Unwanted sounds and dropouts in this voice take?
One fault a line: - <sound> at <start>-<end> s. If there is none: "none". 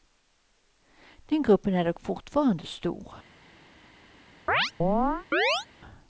- chirp at 4.5-5.7 s